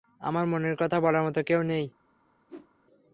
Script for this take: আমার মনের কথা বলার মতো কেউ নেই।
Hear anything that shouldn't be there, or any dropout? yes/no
yes